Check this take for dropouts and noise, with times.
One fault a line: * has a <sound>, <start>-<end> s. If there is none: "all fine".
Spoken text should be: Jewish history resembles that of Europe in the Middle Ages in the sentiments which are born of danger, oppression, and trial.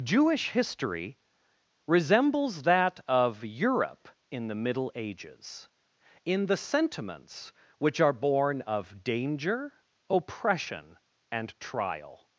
all fine